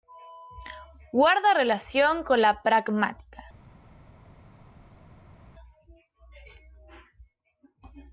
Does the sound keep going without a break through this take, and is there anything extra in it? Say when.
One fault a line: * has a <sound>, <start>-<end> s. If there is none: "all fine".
all fine